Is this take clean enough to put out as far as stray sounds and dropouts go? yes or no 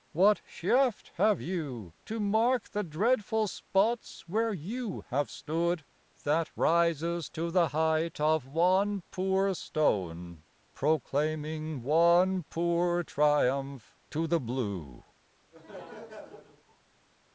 no